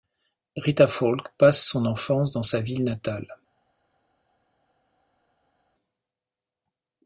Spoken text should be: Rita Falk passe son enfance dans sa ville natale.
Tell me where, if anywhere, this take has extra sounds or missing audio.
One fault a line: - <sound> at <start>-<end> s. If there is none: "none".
none